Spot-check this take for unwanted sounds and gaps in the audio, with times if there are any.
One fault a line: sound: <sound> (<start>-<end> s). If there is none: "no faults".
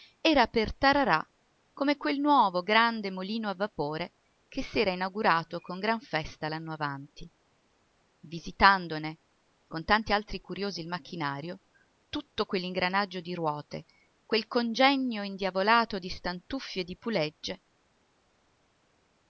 no faults